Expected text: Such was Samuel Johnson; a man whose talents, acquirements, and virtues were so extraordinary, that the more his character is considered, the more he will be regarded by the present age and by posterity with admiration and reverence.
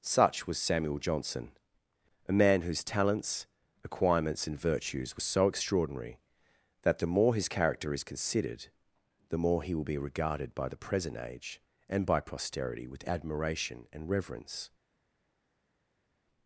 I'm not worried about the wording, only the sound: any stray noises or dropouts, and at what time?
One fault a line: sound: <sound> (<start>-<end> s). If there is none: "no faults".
no faults